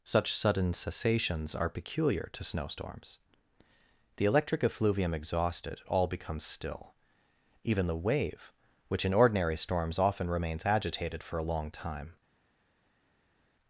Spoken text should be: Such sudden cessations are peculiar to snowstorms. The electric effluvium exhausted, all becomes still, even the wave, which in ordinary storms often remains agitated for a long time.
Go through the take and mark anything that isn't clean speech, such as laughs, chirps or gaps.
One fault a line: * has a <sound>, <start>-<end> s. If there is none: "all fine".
all fine